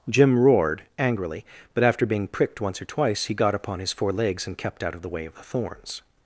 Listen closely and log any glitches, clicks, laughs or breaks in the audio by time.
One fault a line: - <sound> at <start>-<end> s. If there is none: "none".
none